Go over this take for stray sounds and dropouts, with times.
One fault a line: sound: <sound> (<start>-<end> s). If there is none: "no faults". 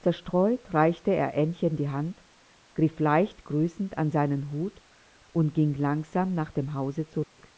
sound: dropout (7.2-7.4 s)